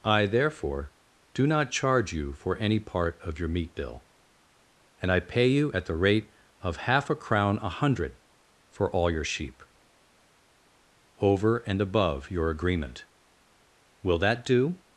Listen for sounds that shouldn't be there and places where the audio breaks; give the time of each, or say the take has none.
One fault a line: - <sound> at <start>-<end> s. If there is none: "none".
none